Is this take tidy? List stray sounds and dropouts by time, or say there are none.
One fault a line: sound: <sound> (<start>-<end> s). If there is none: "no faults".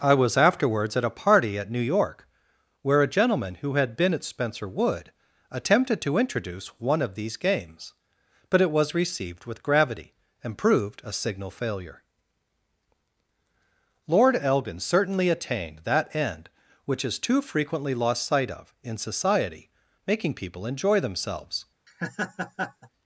sound: laugh (21.9-22.9 s)